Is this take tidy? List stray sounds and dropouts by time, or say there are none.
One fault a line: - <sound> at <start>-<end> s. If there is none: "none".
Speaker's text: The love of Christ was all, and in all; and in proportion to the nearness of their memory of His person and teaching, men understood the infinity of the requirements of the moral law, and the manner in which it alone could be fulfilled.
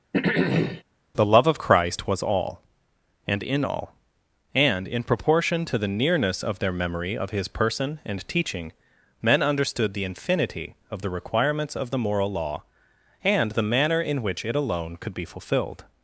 - throat clearing at 0.1-0.8 s